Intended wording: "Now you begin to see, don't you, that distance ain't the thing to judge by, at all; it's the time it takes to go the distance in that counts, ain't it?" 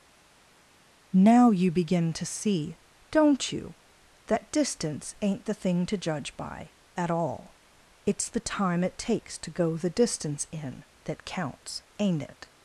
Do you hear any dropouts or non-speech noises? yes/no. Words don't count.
no